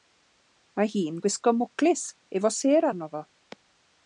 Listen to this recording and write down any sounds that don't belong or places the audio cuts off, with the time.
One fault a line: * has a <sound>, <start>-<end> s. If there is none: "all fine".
all fine